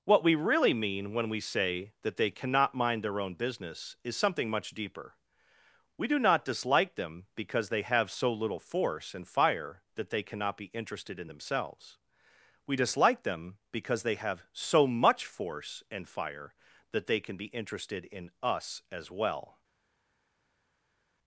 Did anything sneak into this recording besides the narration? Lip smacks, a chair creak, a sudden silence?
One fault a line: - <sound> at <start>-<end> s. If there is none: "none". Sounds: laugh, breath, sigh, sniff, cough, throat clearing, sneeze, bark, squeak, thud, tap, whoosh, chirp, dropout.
none